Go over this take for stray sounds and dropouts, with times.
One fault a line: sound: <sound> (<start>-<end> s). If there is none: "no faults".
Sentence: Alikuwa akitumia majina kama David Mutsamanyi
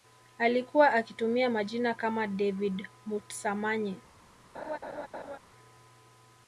sound: laugh (4.5-5.4 s)